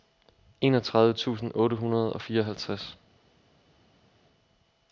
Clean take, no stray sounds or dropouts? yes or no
yes